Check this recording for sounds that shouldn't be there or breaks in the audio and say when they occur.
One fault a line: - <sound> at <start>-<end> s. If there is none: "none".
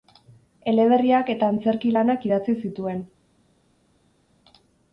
none